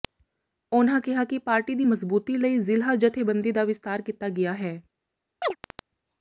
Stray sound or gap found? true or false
true